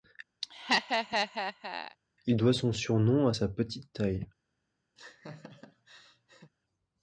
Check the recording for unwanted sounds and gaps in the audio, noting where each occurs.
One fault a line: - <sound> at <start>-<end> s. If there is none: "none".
- laugh at 0.4-2.0 s
- laugh at 5.0-6.5 s